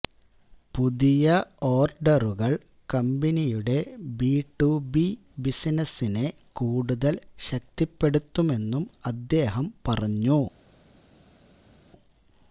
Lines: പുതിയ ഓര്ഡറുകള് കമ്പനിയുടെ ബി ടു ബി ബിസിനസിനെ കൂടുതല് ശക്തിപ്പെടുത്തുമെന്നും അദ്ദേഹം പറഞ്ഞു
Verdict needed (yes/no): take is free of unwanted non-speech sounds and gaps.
yes